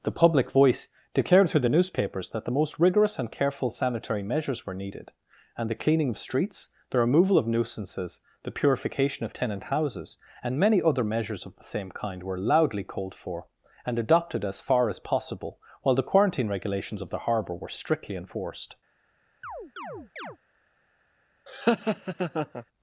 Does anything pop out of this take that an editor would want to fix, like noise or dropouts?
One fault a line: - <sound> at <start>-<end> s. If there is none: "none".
- chirp at 19.4-20.4 s
- laugh at 21.5-22.6 s